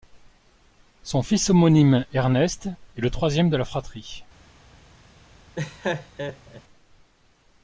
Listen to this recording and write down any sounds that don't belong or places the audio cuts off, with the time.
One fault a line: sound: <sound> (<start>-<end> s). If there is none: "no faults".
sound: laugh (5.5-6.6 s)